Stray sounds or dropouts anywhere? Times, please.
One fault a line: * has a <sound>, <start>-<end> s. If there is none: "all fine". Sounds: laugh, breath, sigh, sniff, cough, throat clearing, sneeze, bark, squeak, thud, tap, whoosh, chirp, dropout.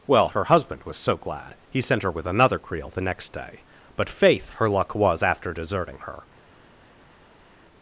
all fine